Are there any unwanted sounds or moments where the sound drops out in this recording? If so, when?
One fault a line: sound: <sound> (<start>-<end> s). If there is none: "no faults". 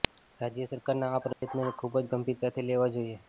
sound: dropout (1.3-1.4 s)